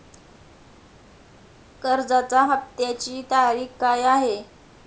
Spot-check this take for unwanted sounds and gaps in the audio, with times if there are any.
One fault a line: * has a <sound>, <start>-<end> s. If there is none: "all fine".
all fine